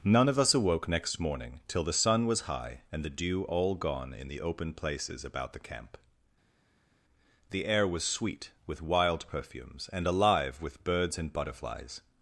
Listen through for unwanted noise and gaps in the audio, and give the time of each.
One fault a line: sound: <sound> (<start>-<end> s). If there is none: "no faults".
no faults